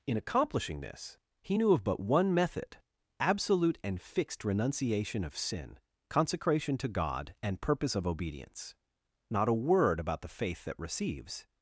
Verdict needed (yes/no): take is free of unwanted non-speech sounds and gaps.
yes